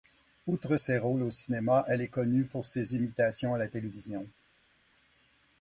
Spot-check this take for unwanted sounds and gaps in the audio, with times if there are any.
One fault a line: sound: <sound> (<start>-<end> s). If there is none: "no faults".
no faults